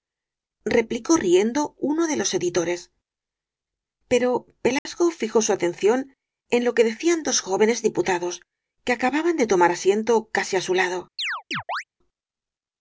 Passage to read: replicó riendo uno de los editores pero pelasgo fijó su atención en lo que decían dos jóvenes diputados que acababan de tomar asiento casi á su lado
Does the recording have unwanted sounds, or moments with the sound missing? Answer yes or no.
yes